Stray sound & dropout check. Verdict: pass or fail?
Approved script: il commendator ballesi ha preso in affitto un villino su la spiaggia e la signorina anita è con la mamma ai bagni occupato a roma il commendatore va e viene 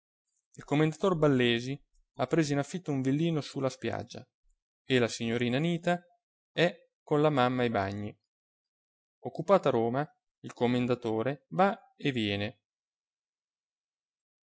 pass